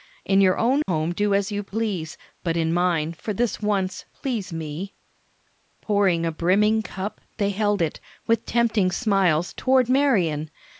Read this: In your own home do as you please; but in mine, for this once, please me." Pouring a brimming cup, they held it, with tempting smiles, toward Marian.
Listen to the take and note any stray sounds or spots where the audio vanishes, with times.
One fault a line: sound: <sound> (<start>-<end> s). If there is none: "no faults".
sound: dropout (0.8-0.9 s)